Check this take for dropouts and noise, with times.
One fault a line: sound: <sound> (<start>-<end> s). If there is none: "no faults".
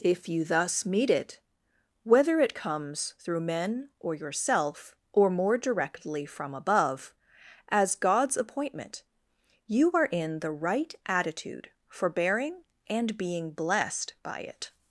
no faults